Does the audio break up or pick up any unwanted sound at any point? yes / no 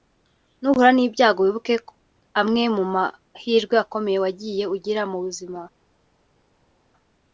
no